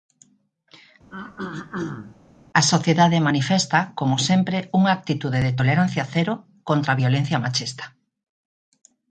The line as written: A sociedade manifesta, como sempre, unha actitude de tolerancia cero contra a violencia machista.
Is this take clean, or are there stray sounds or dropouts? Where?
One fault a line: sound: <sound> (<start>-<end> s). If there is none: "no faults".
sound: throat clearing (1.1-2.2 s)